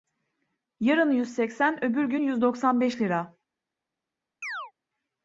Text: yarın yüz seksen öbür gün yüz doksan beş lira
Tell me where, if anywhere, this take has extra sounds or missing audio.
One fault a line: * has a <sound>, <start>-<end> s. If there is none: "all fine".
* has a chirp, 4.4-4.7 s